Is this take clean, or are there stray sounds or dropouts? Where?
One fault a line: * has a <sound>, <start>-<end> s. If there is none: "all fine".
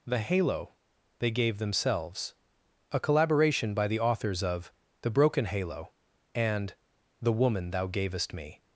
all fine